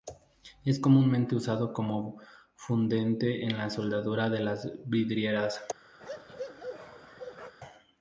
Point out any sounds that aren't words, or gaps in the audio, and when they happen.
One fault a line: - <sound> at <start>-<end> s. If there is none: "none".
- bark at 6.0-7.5 s